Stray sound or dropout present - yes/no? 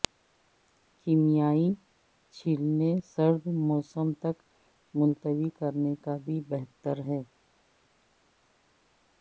no